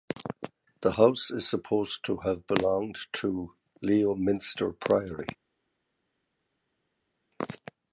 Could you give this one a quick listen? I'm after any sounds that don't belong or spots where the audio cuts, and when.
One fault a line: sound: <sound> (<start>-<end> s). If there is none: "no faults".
no faults